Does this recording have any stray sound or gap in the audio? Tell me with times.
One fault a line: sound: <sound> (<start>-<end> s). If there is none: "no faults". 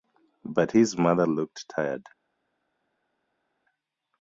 no faults